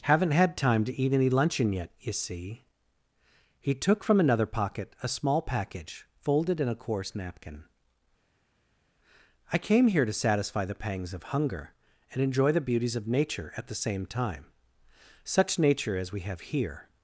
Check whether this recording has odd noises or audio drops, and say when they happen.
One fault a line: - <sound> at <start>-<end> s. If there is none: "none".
none